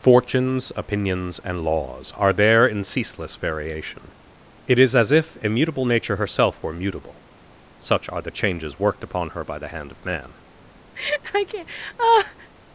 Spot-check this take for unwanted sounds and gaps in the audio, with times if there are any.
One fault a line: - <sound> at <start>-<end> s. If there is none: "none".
- laugh at 11.0-12.5 s